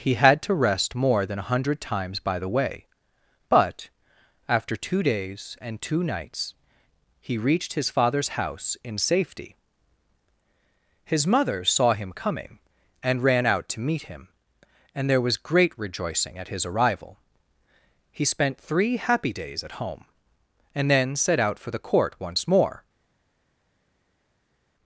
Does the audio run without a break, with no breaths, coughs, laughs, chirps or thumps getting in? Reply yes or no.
yes